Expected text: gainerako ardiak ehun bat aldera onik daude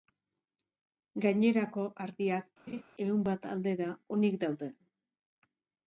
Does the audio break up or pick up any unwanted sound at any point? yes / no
yes